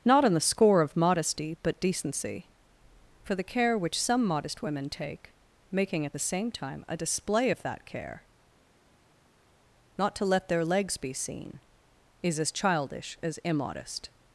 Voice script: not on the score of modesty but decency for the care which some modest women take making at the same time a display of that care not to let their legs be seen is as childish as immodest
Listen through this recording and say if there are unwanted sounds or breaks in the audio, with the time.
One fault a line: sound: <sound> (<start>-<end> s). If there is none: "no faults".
no faults